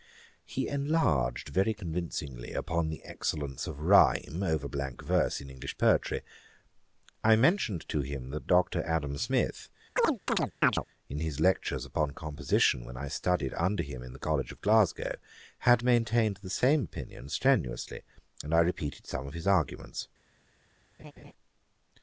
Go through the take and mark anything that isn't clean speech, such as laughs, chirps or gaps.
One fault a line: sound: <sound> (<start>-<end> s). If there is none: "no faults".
sound: chirp (10.0-10.8 s)
sound: laugh (21.0-21.3 s)